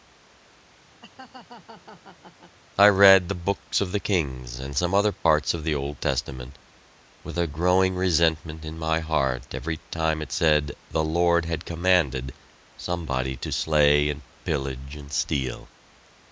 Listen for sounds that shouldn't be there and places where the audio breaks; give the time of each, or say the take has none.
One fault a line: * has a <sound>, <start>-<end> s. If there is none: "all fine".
* has a laugh, 1.0-2.6 s
* has a dropout, 5.1-5.3 s